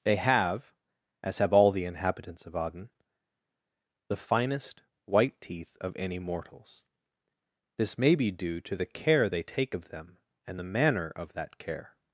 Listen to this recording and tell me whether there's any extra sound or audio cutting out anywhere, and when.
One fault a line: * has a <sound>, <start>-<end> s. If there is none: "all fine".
all fine